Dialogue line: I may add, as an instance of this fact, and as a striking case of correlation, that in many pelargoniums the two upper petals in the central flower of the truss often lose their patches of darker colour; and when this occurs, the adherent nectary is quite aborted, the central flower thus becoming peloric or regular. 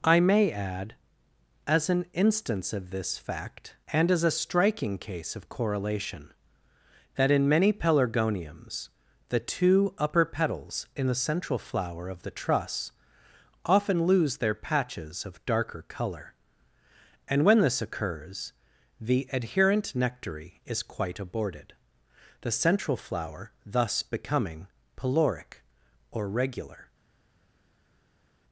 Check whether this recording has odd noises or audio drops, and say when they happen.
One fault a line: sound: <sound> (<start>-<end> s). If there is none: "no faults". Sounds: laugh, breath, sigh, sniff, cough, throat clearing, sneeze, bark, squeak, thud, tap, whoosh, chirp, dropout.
no faults